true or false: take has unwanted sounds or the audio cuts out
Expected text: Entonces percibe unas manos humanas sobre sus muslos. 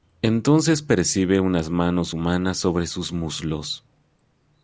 false